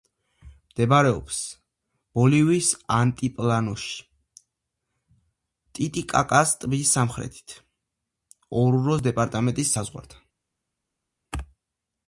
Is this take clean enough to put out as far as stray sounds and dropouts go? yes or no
yes